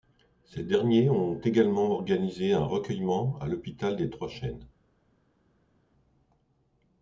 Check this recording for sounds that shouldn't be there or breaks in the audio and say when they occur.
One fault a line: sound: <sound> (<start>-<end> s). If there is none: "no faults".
no faults